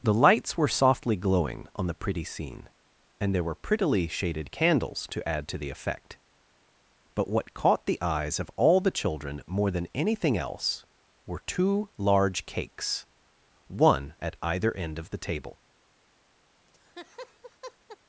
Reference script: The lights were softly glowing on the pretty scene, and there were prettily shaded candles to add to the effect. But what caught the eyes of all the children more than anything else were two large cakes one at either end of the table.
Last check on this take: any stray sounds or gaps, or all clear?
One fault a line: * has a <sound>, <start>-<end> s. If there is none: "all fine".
* has a laugh, 16.7-18.0 s